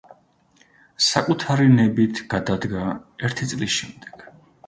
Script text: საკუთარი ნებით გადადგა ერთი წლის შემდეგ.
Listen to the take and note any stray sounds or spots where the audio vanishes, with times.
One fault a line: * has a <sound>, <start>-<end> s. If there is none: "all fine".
all fine